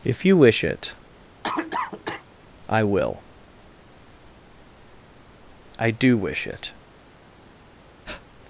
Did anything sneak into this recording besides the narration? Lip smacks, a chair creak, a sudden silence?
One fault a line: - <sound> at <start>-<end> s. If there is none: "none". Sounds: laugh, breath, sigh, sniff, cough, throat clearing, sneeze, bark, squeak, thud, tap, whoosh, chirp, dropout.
- cough at 1.4-2.2 s
- breath at 8.0-8.2 s